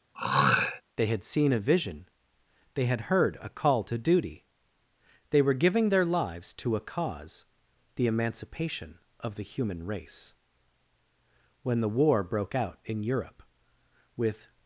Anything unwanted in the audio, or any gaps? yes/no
yes